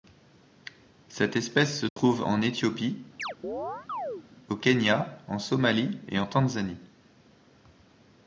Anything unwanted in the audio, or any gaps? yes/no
yes